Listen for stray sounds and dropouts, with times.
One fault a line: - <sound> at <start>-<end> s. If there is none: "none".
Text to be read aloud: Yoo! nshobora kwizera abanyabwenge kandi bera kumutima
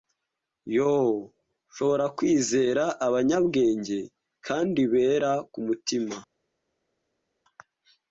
none